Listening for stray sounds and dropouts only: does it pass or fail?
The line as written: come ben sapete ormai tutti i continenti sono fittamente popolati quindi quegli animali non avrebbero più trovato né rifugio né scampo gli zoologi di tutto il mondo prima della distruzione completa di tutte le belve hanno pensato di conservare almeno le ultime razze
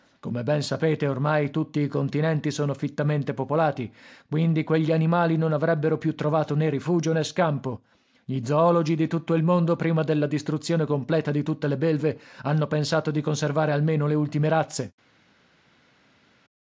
pass